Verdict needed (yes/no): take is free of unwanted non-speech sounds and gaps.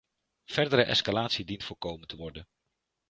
yes